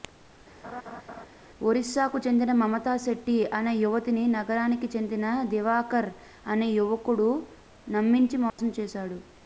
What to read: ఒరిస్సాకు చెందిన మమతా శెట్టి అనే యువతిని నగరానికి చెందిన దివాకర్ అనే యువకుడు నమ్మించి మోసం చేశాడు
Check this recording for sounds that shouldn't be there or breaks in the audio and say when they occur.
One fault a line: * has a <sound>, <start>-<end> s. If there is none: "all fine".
* has a laugh, 0.6-1.3 s
* has a dropout, 8.5-8.6 s